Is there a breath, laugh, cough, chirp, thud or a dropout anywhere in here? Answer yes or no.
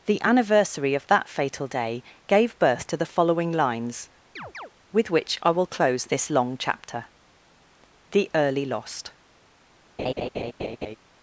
yes